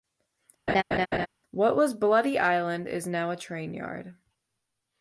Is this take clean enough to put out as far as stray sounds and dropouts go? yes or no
no